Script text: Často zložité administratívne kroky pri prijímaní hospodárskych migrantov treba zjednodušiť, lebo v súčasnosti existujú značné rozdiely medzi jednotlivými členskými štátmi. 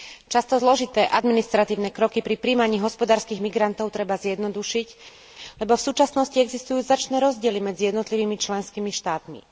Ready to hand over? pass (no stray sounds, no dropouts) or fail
pass